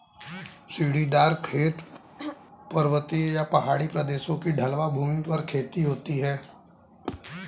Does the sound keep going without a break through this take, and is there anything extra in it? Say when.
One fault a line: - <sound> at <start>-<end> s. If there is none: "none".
- throat clearing at 2.2-2.4 s